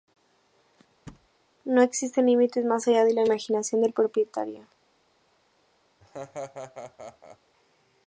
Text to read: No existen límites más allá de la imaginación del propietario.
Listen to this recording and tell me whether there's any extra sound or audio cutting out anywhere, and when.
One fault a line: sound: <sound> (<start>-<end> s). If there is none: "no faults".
sound: thud (1.1-1.3 s)
sound: laugh (6.0-7.4 s)